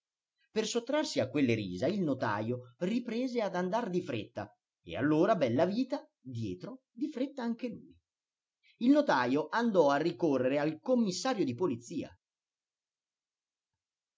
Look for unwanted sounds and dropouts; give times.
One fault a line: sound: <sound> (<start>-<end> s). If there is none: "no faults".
no faults